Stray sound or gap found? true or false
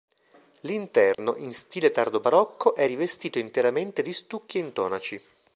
true